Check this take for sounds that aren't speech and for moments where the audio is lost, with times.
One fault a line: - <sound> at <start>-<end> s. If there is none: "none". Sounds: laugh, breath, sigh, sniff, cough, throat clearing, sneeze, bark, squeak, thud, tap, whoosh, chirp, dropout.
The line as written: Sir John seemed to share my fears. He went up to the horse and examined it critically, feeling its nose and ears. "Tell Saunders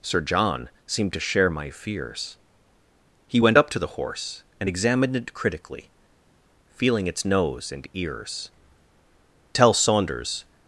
none